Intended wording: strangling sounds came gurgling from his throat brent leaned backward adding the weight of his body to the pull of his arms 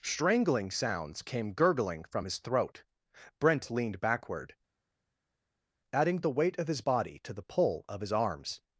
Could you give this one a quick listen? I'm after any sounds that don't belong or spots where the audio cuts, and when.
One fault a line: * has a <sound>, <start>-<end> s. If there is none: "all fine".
all fine